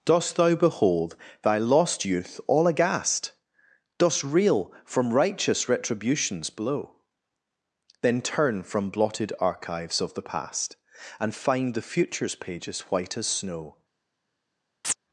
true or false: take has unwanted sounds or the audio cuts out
true